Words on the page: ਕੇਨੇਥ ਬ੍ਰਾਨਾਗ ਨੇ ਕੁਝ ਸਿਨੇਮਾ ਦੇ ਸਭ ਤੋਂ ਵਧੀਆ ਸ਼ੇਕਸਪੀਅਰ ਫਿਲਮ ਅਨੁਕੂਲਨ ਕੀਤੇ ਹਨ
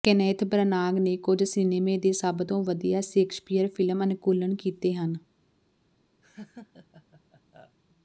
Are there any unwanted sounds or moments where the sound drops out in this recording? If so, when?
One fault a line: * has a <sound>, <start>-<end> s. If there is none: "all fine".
* has a laugh, 6.2-7.8 s